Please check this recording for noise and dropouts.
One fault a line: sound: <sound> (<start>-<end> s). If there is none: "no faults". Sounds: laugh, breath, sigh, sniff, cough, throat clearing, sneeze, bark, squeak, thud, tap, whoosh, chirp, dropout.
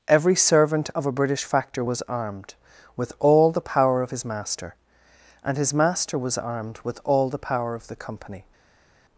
no faults